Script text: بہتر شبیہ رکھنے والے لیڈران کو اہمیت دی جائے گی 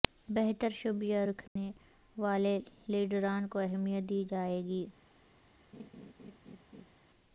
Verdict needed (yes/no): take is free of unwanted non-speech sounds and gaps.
no